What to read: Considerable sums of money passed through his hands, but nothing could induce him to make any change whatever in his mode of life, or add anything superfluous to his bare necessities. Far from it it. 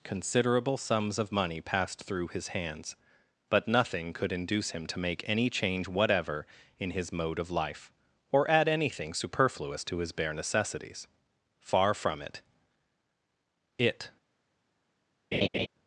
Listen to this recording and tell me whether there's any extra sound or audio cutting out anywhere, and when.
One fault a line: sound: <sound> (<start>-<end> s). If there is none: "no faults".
sound: laugh (15.3-15.7 s)